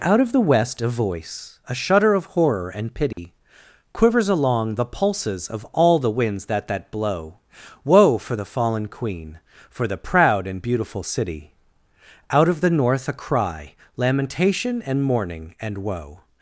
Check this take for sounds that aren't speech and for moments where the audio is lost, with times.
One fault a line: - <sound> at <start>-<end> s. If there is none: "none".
- dropout at 3.1-3.2 s